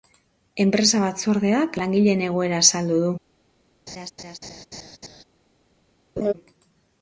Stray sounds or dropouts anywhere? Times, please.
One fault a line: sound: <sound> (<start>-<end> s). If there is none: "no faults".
sound: laugh (3.9-5.2 s)
sound: laugh (6.2-6.3 s)